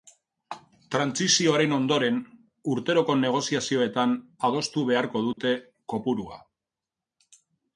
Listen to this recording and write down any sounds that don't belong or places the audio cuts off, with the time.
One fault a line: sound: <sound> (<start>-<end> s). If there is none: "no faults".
sound: dropout (5.3-5.4 s)